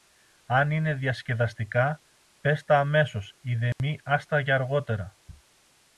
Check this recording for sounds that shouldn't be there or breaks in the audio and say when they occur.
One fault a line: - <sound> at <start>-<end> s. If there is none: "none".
- dropout at 3.7-3.8 s